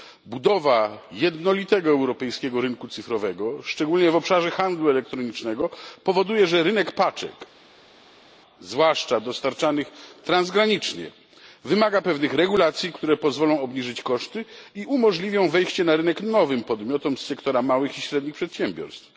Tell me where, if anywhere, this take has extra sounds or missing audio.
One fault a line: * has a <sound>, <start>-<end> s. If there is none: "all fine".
all fine